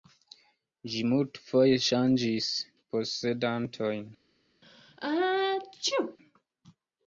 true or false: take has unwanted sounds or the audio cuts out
true